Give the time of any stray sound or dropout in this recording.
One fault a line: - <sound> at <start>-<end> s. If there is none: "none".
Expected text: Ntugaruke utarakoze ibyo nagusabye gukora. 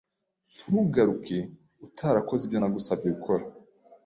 none